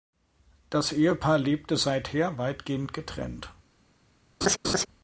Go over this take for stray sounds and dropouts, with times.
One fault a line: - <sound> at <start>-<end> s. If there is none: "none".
- laugh at 4.4-4.9 s